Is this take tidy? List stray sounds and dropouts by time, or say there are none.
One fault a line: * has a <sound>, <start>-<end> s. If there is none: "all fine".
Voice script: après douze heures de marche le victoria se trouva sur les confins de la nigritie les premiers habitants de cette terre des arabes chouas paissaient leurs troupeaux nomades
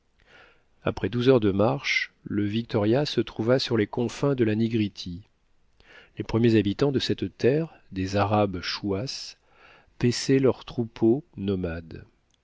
all fine